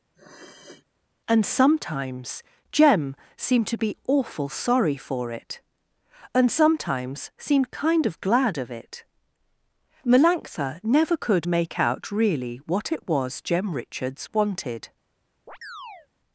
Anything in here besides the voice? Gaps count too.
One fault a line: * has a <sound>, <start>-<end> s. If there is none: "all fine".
* has a sniff, 0.1-0.8 s
* has a chirp, 15.5-16.1 s